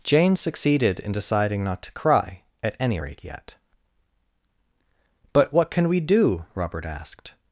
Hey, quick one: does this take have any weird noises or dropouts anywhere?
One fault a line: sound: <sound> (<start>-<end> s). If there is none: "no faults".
no faults